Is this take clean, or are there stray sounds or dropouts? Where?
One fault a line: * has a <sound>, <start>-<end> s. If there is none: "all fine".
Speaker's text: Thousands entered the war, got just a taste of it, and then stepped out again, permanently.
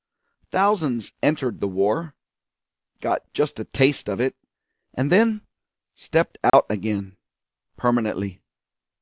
* has a dropout, 6.5-6.5 s